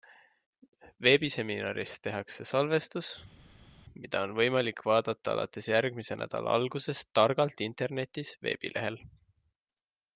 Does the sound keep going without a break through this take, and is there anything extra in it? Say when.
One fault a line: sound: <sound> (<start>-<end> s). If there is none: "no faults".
no faults